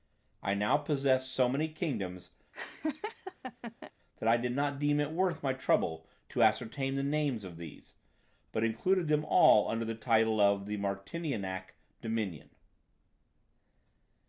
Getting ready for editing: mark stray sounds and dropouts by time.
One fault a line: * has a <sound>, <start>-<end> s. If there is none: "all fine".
* has a laugh, 2.5-3.9 s